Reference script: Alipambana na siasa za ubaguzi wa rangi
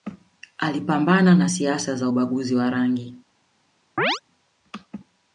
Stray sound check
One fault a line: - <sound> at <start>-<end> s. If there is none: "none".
- chirp at 4.0-4.2 s